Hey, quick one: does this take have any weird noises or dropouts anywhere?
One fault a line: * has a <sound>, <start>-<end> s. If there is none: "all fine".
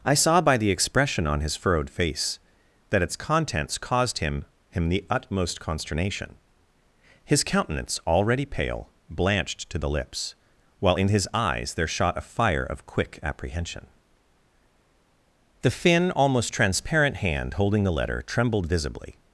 all fine